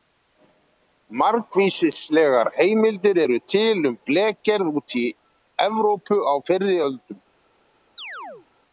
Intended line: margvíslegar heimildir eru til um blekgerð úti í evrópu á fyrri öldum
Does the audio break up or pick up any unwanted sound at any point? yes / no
yes